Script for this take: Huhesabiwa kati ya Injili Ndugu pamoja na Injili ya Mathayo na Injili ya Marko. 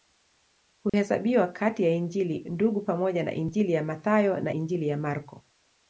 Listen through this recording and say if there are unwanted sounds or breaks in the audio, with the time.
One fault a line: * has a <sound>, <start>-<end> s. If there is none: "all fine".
* has a dropout, 0.9-0.9 s